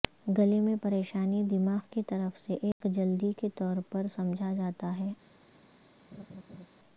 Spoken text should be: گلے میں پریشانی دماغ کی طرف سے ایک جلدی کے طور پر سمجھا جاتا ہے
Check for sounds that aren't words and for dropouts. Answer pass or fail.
fail